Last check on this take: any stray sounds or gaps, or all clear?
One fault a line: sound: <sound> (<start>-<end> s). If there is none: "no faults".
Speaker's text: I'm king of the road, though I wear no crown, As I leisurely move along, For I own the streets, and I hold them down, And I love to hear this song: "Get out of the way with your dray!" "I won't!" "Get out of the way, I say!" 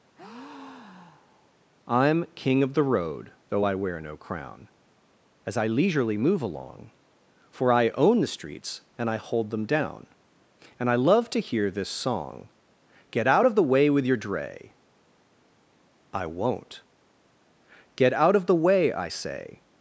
sound: breath (0.2-1.6 s)